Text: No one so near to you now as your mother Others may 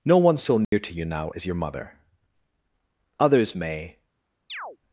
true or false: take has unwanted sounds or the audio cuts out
true